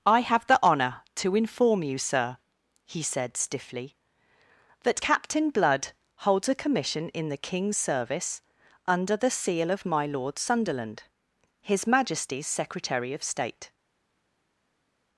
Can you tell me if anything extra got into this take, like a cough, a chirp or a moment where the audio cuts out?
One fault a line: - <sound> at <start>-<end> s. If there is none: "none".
none